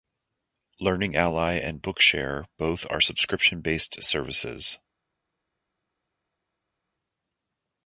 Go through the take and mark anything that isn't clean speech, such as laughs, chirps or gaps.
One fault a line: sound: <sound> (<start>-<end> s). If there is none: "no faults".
no faults